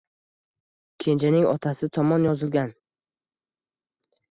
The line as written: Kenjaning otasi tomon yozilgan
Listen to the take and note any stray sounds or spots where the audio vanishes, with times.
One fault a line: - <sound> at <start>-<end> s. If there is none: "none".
none